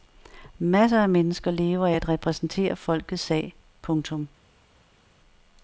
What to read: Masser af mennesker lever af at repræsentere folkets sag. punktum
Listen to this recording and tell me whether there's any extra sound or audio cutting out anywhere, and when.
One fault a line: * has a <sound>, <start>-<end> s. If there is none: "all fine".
all fine